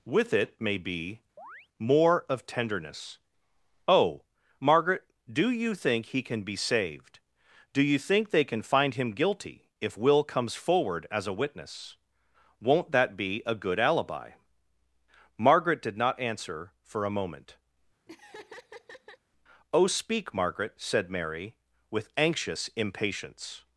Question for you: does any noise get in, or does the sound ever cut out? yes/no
yes